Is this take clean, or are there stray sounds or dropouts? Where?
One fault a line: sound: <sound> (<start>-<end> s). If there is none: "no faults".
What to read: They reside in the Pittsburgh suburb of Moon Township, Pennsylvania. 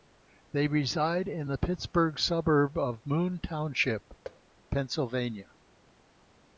sound: thud (4.2-4.4 s)